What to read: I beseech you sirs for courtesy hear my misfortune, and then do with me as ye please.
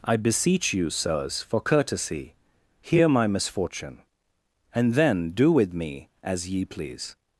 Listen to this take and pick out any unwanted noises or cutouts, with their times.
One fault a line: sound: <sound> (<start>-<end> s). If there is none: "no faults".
no faults